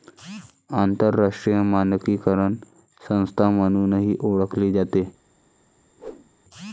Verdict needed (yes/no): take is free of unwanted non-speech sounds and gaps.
no